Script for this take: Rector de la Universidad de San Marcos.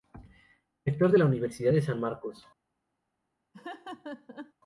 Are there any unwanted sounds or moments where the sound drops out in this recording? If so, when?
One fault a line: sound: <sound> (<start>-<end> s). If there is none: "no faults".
sound: laugh (3.5-4.5 s)